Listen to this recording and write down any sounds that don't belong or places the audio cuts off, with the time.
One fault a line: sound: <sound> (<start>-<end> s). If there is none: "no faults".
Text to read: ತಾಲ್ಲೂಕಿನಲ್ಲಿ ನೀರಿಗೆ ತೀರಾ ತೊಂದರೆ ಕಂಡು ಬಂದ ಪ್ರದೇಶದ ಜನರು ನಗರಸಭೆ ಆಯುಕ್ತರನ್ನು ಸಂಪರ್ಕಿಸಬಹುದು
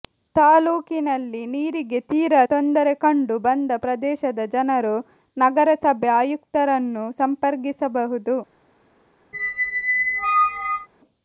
sound: squeak (9.3-10.9 s)